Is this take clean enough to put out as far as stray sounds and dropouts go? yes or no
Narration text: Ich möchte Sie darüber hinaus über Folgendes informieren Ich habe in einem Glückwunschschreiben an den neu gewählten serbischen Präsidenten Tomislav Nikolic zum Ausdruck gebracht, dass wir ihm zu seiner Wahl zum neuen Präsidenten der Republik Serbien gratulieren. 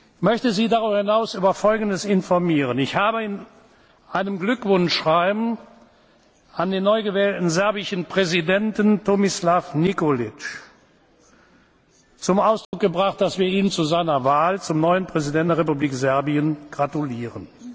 no